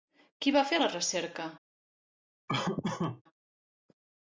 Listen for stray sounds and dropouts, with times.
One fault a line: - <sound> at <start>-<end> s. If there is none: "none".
- laugh at 2.5-3.2 s